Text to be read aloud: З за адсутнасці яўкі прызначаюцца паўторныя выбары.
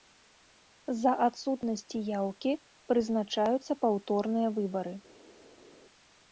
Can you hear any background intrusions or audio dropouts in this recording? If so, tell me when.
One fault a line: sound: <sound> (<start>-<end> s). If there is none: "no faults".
no faults